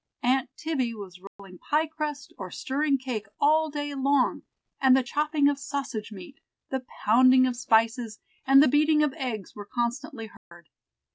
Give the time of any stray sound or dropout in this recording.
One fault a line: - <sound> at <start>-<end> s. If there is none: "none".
- dropout at 1.3-1.4 s
- dropout at 10.4-10.5 s